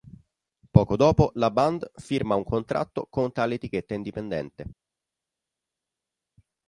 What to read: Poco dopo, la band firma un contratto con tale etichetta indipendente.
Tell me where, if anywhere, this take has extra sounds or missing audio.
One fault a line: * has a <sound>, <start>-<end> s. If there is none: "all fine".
all fine